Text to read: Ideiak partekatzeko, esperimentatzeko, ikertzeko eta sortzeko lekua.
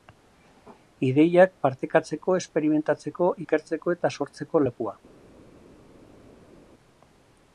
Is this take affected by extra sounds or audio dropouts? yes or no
no